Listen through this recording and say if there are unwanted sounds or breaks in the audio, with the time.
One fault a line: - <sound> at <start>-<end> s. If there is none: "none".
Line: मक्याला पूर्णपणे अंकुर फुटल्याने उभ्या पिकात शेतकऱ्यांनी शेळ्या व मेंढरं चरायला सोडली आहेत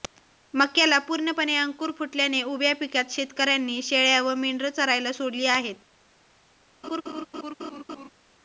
- laugh at 6.8-8.1 s